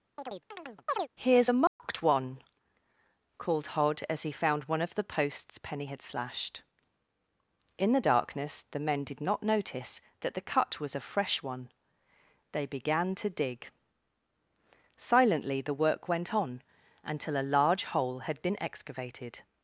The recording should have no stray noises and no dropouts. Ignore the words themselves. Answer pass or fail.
fail